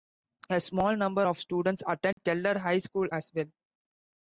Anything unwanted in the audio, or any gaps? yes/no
yes